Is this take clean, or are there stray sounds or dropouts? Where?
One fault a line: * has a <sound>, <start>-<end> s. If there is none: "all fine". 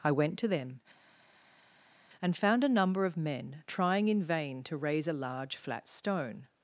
all fine